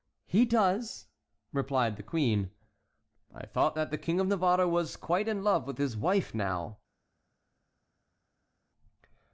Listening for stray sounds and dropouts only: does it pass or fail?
pass